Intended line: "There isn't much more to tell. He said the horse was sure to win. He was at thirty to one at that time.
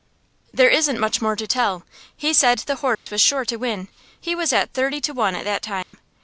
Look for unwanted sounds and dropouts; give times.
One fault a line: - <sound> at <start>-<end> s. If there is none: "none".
- dropout at 2.9-3.1 s
- dropout at 5.8-5.9 s